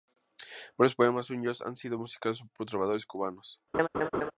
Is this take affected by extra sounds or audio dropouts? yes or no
yes